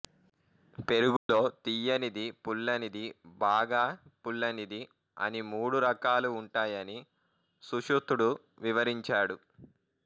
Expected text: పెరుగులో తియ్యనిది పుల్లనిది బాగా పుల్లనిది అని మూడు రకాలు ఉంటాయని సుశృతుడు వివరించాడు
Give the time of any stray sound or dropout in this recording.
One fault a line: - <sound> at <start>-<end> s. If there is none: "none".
- dropout at 1.2-1.3 s